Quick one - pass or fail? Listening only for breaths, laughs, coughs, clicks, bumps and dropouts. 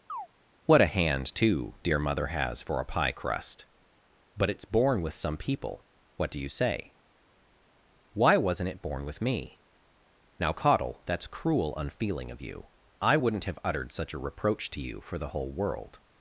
fail